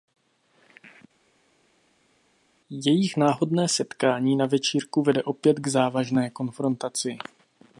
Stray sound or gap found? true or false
false